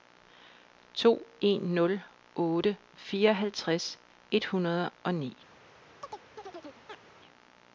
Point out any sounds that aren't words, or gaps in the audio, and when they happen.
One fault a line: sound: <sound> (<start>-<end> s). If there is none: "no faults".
sound: chirp (6.0-7.1 s)